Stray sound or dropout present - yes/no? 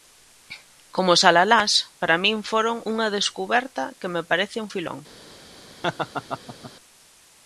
yes